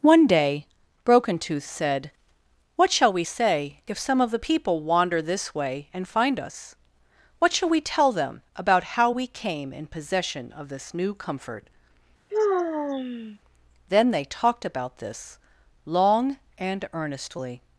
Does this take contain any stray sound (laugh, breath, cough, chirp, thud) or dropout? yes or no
yes